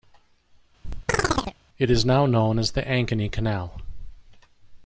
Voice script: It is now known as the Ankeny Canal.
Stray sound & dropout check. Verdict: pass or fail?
fail